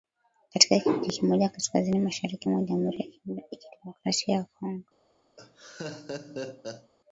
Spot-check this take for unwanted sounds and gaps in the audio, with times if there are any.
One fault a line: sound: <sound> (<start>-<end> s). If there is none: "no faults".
sound: laugh (5.4-6.9 s)